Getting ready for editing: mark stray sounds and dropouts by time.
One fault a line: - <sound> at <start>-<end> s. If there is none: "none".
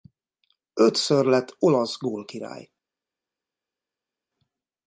none